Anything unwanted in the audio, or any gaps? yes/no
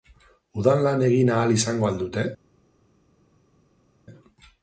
no